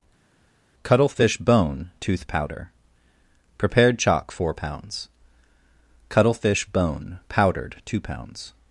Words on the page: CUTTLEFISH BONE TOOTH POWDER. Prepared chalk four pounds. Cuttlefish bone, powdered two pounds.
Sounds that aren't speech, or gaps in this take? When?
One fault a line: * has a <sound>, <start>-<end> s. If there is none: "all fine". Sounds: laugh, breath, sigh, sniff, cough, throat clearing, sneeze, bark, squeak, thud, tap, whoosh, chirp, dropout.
all fine